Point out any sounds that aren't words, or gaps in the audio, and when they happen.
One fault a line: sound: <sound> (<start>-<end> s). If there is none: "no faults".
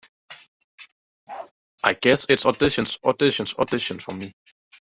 sound: bark (1.3-1.5 s)